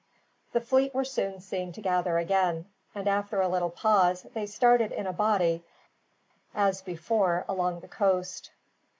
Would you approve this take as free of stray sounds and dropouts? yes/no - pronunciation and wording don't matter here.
yes